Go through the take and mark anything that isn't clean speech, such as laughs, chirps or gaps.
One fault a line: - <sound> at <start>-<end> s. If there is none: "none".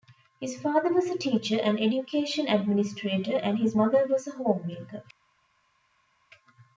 none